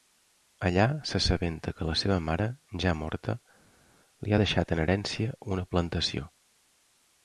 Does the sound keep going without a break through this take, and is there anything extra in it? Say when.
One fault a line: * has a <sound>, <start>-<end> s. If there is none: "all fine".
all fine